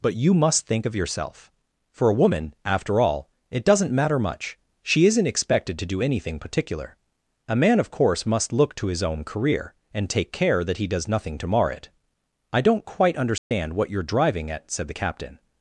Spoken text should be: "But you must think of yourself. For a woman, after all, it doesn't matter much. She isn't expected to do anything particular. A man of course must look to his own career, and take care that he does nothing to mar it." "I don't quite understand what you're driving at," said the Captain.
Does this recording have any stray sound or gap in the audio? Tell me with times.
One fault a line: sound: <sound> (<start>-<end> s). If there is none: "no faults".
sound: dropout (13.4-13.5 s)